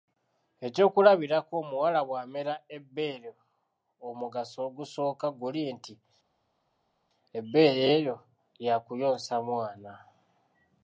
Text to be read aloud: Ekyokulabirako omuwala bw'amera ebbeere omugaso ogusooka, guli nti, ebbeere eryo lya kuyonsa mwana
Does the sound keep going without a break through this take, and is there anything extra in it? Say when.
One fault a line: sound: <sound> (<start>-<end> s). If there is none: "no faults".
no faults